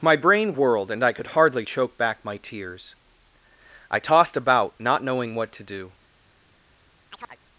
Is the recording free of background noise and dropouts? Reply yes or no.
no